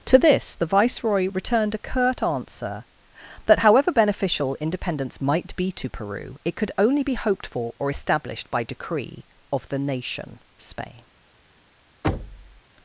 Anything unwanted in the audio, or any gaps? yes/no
yes